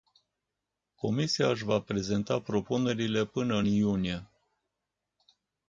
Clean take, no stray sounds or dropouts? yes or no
yes